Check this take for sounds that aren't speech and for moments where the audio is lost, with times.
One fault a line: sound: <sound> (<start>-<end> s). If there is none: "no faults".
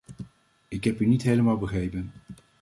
no faults